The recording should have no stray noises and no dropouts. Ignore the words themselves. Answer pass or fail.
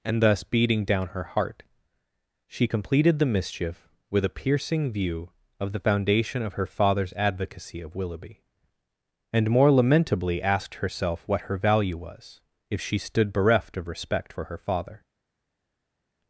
pass